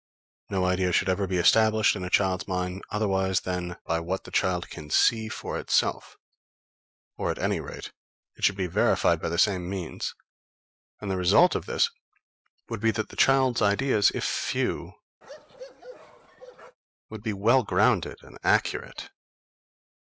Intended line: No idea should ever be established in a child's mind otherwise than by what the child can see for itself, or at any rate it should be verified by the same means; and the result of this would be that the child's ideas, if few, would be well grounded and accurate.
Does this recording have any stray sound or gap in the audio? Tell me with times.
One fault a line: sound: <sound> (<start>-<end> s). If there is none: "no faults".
sound: bark (15.2-16.8 s)